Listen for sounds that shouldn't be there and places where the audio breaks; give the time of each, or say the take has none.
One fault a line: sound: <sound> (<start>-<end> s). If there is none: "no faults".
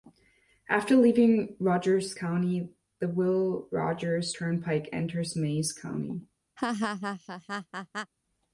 sound: laugh (6.6-8.1 s)